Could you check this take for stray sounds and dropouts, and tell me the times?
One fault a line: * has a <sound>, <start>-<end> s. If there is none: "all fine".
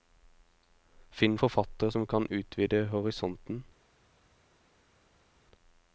all fine